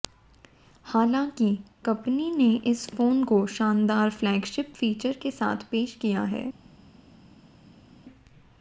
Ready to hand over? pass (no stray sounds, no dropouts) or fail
pass